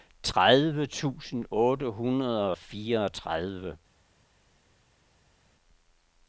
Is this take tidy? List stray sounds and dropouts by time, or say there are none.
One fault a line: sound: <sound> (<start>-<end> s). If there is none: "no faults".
no faults